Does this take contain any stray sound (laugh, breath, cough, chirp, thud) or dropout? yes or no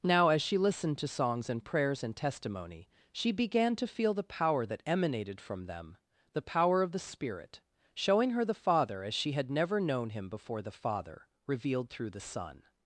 no